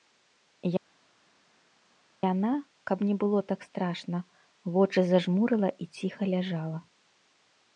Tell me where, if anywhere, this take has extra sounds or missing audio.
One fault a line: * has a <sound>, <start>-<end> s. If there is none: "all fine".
all fine